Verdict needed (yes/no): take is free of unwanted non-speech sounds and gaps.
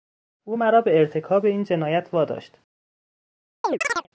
no